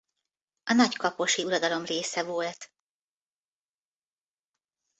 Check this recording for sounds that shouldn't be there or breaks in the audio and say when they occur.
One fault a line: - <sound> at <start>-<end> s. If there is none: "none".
none